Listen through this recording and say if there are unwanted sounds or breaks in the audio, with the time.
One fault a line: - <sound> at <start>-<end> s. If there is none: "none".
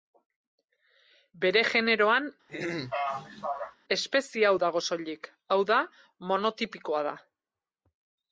- throat clearing at 2.5-3.8 s